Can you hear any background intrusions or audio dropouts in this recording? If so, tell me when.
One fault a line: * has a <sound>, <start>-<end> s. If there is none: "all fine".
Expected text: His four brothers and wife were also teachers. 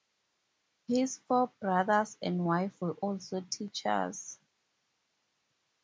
all fine